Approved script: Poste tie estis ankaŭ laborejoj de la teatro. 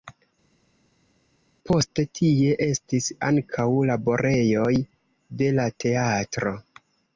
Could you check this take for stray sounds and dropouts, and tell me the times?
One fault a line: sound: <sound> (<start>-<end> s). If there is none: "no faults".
no faults